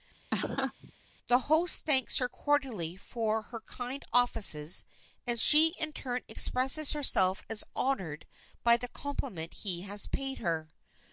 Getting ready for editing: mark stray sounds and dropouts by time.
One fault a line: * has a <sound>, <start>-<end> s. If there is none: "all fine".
* has a laugh, 0.3-0.9 s